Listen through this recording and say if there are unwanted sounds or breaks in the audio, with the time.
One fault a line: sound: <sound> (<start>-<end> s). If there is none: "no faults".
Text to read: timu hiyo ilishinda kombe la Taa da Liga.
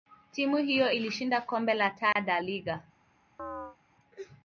sound: dropout (2.1-2.2 s)
sound: chirp (3.4-3.8 s)